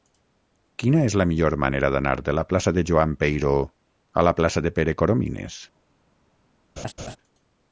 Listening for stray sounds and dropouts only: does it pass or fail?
fail